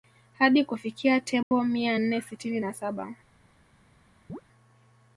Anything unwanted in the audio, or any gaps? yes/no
yes